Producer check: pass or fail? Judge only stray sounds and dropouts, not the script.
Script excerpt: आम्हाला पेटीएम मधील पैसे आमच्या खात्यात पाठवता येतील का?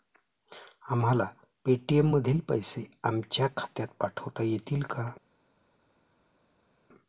pass